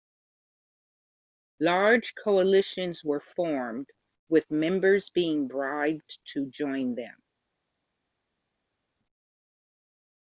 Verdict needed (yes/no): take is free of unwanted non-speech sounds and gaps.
yes